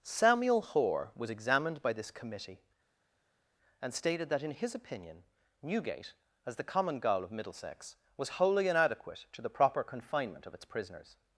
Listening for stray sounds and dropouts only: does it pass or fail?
pass